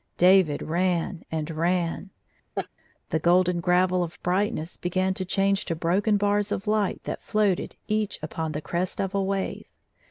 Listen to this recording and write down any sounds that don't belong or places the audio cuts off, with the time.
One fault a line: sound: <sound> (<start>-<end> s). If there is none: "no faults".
sound: laugh (2.6-2.7 s)